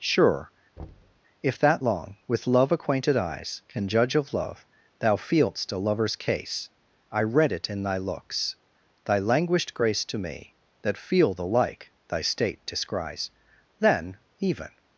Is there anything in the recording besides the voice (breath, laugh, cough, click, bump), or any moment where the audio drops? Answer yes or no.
yes